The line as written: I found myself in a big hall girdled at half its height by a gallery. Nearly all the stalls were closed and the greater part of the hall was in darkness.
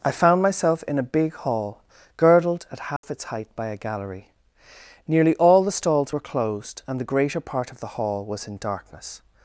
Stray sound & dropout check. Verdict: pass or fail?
fail